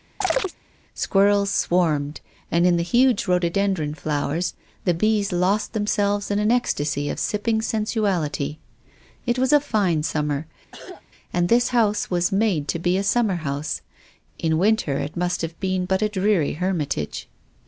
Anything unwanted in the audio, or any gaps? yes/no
yes